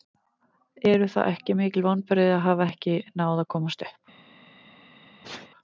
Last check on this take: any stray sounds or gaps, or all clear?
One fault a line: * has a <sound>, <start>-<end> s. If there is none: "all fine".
* has a sneeze, 5.2-5.5 s